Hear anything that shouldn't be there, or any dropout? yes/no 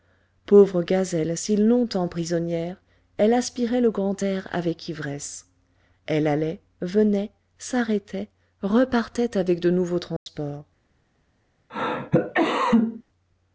yes